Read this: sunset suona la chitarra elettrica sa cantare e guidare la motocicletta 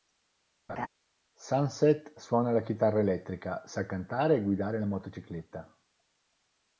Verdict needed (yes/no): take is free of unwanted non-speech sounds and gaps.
no